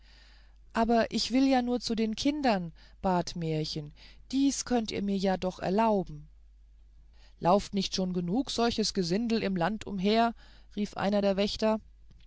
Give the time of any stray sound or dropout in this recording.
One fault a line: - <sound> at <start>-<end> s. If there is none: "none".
none